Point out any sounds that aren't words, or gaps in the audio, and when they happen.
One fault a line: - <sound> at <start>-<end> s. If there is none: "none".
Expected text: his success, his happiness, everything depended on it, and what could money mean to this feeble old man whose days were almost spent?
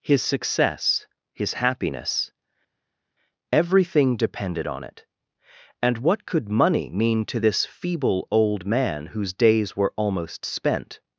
none